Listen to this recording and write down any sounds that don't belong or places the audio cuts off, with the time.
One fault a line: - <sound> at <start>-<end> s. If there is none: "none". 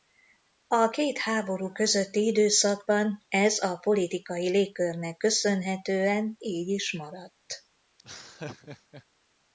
- laugh at 8.0-9.0 s